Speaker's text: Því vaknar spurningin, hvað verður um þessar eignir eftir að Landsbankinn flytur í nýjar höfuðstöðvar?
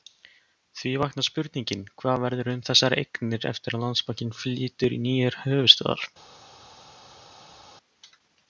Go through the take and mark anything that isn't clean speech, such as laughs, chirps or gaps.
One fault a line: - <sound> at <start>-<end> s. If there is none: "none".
none